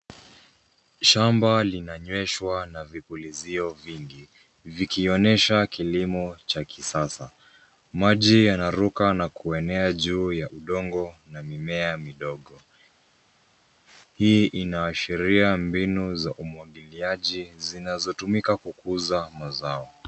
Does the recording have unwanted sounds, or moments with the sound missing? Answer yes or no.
no